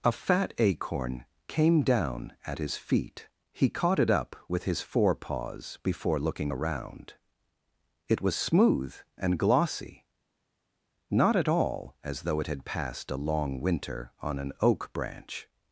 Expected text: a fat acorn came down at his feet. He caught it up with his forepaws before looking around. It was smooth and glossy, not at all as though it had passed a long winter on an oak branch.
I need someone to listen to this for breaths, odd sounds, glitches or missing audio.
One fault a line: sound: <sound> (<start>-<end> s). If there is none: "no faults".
no faults